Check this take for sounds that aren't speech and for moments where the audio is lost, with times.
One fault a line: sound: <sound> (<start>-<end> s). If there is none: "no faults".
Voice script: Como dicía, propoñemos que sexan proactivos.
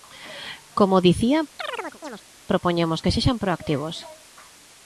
sound: chirp (1.6-2.3 s)